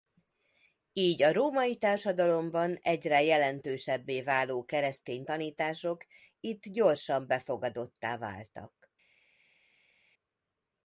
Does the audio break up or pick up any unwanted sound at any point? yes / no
no